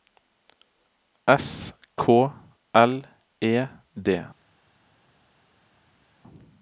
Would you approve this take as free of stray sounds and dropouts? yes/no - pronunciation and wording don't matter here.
yes